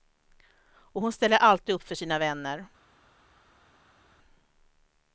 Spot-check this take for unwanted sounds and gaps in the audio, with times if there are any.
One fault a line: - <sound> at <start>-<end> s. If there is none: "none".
none